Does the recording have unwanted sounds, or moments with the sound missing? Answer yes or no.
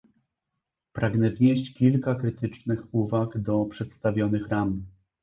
no